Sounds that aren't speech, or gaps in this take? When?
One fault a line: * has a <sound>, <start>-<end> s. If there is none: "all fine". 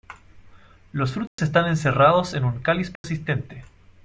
* has a dropout, 1.3-1.4 s
* has a dropout, 3.0-3.0 s